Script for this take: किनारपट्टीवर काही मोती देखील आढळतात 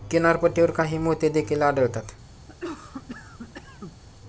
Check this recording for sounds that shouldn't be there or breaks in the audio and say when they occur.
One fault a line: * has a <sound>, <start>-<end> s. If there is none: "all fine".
* has a cough, 2.5-4.0 s